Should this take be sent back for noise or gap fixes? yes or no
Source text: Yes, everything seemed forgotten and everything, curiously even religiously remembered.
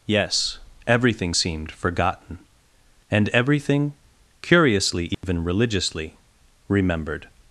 yes